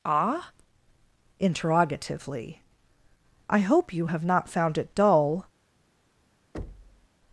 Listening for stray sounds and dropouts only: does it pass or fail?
fail